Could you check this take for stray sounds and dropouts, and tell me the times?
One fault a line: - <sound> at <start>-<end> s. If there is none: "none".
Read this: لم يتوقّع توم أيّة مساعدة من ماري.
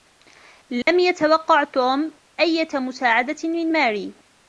- dropout at 0.8-0.9 s